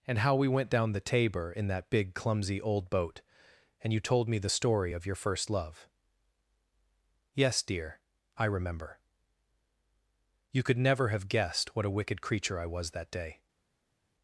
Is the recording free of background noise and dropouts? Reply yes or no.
yes